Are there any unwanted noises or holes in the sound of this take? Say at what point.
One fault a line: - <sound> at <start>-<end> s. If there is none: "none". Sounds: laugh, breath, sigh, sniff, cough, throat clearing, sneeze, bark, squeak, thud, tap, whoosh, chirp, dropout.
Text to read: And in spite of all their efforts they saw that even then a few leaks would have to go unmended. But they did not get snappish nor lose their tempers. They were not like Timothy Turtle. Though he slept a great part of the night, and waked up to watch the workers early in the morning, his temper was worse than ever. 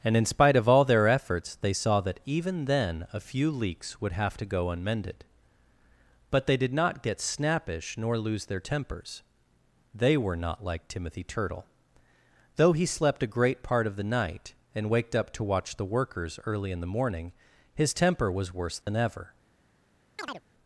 - dropout at 18.8-18.9 s
- chirp at 20.2-20.4 s